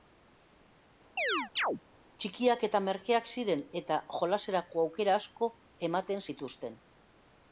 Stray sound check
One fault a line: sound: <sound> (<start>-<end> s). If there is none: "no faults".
sound: chirp (1.2-1.8 s)